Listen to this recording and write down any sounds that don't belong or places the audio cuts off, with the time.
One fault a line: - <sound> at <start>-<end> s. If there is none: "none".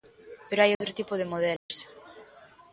- dropout at 0.7-0.8 s
- dropout at 1.6-1.7 s